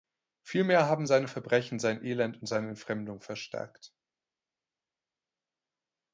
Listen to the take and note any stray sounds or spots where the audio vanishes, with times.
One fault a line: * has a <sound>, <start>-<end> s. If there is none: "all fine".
all fine